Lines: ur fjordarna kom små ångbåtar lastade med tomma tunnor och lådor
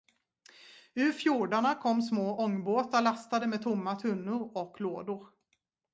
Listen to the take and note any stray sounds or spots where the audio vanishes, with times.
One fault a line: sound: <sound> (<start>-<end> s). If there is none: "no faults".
no faults